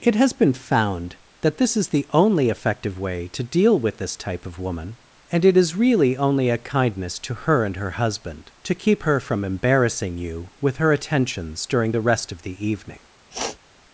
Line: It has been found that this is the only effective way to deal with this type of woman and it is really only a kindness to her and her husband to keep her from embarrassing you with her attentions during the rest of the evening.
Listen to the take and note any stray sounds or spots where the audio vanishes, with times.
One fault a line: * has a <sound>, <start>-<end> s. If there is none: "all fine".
* has a sniff, 13.3-13.6 s